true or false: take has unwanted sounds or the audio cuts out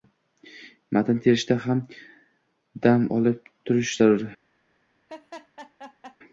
true